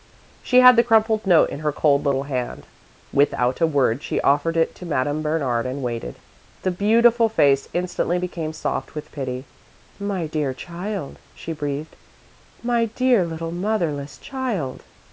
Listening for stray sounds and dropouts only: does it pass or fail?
pass